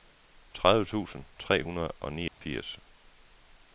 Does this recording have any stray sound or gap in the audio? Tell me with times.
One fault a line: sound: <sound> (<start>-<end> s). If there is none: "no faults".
sound: dropout (2.3-2.4 s)